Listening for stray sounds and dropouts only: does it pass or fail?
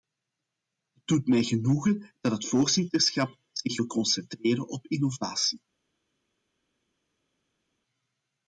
pass